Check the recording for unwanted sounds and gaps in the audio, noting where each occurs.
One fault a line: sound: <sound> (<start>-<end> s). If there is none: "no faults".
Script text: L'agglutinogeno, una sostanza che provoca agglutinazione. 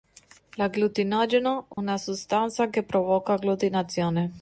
sound: dropout (1.7-1.8 s)